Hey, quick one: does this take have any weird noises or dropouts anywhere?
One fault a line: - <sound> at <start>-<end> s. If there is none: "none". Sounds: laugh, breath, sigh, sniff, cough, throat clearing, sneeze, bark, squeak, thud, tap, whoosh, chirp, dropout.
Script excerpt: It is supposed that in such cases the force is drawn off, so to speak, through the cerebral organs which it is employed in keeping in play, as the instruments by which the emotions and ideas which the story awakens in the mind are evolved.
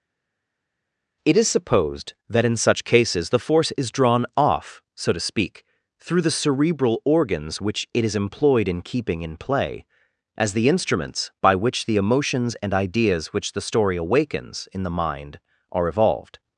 none